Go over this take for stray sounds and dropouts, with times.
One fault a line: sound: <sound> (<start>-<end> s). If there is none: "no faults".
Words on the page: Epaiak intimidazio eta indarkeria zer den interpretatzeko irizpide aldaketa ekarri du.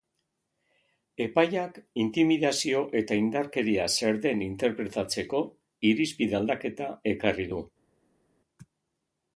no faults